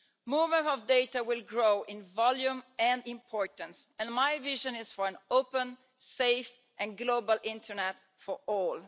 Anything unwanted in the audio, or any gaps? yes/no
no